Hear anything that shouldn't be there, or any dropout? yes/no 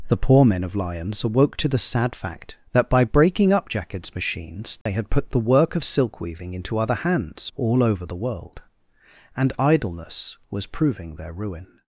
yes